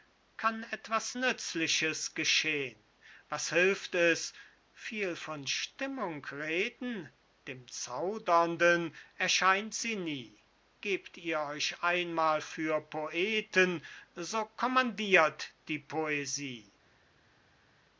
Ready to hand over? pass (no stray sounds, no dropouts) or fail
pass